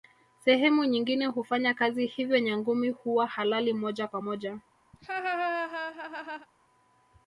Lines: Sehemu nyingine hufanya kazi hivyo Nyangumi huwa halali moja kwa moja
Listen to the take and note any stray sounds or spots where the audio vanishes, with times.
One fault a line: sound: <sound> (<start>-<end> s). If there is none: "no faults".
sound: laugh (4.9-6.5 s)